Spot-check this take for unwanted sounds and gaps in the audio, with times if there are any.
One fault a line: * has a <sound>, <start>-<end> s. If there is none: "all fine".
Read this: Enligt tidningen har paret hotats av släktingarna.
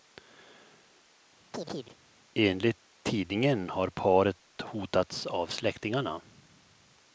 * has a chirp, 1.5-2.0 s